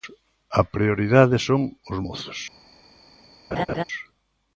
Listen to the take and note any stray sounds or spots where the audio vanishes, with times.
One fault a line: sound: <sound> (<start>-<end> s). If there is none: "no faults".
sound: laugh (3.5-3.8 s)